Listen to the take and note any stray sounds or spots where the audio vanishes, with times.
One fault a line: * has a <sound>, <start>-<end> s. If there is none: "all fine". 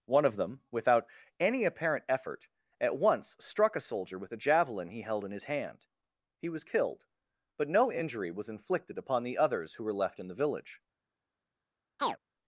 * has a chirp, 12.0-12.2 s